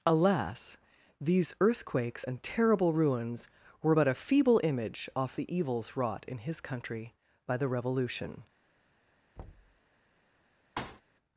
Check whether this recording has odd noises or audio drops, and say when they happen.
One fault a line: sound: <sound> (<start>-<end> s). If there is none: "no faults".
sound: thud (9.4-9.8 s)
sound: thud (10.8-11.0 s)